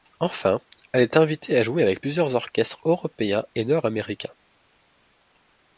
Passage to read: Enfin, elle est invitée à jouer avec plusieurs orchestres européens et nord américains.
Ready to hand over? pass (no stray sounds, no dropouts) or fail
pass